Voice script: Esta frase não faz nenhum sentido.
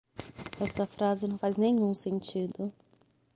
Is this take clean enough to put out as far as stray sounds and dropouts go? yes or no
yes